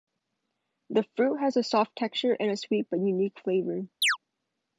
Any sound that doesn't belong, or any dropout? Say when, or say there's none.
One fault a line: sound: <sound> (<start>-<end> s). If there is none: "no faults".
sound: chirp (4.0-4.2 s)